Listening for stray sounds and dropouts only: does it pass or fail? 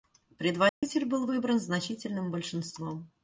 fail